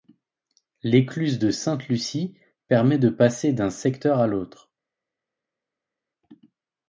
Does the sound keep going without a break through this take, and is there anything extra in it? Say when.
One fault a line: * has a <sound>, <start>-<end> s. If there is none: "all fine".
all fine